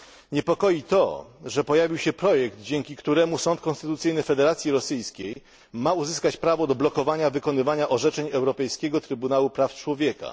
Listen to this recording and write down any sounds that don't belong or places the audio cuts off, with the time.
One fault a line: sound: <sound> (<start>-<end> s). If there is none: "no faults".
sound: dropout (5.3-5.4 s)